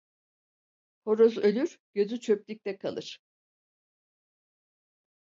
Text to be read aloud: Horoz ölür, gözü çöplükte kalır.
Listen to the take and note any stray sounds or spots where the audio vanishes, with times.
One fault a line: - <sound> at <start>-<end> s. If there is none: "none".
none